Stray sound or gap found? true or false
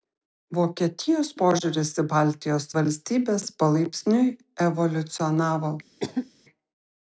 true